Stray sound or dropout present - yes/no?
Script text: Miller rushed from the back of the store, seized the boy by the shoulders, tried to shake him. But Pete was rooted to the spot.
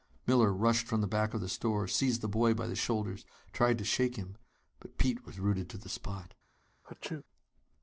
yes